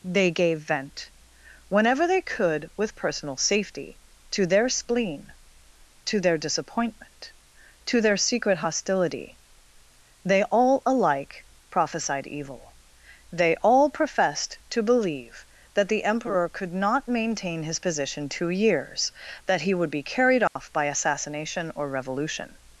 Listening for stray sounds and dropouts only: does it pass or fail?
fail